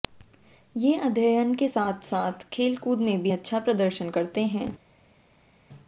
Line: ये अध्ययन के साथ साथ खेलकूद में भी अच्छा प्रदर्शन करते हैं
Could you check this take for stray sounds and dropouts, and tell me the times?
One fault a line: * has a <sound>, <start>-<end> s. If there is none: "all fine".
all fine